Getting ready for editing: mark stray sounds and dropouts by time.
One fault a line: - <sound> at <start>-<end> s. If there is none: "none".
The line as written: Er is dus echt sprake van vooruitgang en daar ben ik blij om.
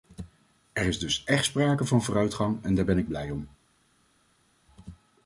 none